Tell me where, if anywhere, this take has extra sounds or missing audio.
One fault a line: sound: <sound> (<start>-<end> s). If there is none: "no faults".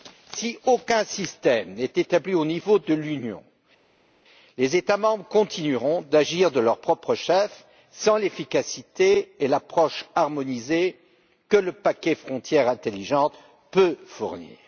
no faults